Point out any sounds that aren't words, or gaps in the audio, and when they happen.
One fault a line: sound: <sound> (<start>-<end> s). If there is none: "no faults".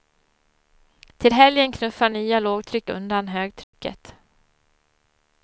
sound: dropout (3.6-3.7 s)